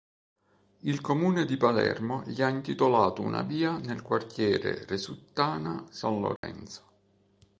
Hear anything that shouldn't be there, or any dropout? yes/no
yes